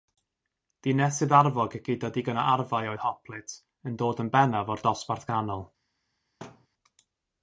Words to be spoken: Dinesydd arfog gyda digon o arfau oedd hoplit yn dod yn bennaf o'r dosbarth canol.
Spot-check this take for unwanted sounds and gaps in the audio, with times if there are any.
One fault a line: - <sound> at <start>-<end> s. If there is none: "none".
- thud at 6.4-6.7 s